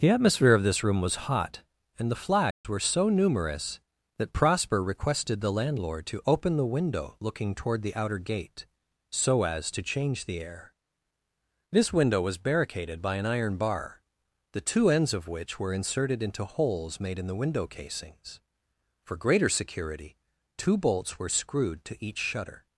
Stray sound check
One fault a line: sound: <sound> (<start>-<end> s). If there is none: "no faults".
sound: dropout (2.5-2.6 s)